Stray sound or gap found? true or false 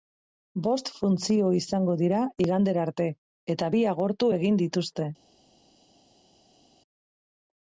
false